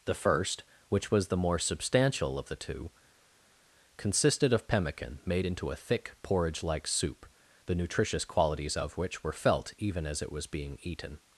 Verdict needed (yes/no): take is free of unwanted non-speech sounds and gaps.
yes